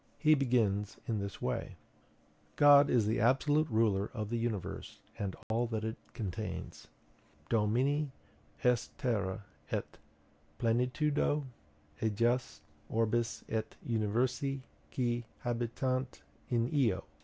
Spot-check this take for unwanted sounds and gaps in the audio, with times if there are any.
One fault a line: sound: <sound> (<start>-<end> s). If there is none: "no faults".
sound: dropout (5.4-5.5 s)